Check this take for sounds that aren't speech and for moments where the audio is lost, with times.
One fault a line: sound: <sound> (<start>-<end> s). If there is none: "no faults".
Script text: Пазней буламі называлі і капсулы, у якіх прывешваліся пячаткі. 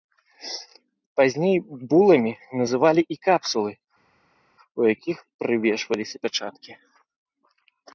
no faults